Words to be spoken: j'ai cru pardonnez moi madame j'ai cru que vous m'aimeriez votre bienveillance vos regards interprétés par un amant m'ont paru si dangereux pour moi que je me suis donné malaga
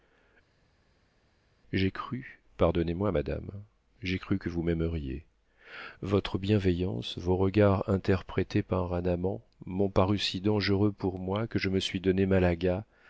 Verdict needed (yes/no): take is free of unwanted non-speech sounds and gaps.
yes